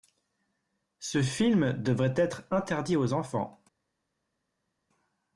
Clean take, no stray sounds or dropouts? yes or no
yes